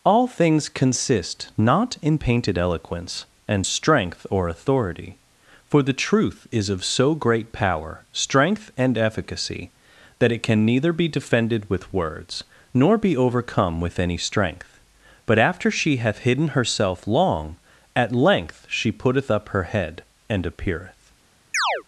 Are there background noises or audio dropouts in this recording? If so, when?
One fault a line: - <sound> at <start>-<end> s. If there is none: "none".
- chirp at 21.5-21.8 s